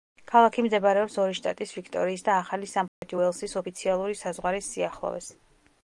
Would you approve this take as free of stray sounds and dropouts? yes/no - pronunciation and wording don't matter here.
no